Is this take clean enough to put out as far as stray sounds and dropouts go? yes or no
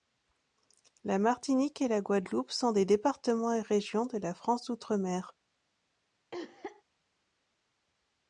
no